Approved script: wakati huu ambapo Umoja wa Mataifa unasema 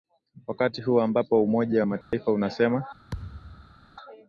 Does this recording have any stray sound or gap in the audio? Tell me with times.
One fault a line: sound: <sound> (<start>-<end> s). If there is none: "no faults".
sound: dropout (2.0-2.1 s)
sound: thud (3.1-3.8 s)